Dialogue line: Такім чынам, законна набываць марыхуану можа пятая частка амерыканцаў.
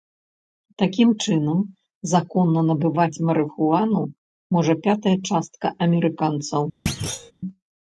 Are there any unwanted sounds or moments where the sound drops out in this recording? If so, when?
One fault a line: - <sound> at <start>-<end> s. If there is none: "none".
- thud at 6.9-7.3 s